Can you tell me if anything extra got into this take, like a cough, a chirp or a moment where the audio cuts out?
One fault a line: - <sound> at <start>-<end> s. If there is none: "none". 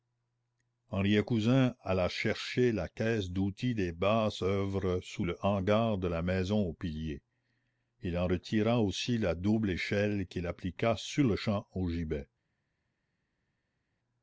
none